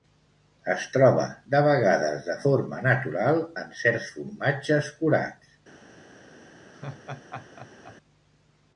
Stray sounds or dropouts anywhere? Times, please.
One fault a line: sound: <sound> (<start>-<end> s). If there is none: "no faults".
sound: laugh (6.7-8.0 s)